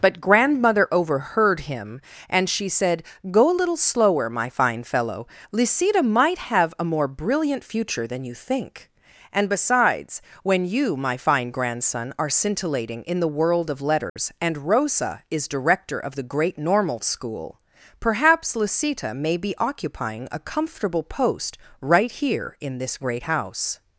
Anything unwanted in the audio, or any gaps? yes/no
yes